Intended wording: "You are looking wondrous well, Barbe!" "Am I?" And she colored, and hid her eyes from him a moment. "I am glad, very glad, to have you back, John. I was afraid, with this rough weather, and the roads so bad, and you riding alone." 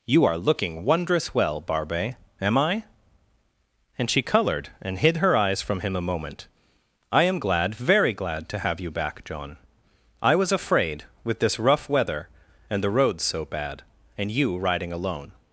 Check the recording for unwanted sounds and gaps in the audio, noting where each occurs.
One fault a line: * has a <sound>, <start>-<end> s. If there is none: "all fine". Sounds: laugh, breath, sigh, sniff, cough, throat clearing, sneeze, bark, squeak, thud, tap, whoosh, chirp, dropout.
all fine